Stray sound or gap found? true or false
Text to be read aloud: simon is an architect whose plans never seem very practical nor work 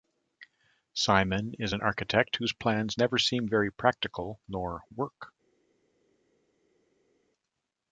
false